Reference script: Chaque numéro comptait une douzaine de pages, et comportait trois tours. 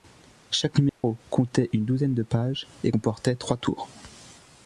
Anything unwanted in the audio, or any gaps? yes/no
yes